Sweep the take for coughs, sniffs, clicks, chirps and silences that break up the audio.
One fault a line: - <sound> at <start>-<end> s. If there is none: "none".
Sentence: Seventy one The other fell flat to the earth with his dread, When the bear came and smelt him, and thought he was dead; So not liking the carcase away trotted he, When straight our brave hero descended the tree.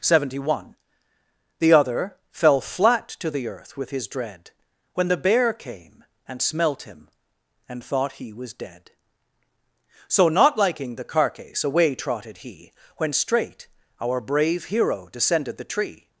none